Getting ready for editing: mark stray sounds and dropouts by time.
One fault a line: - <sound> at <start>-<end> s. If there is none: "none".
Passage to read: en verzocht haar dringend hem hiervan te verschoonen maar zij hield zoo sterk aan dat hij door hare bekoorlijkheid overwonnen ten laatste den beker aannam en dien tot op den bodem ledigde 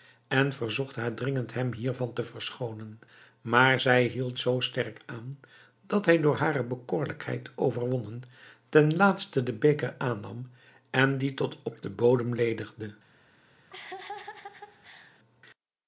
- laugh at 13.7-15.2 s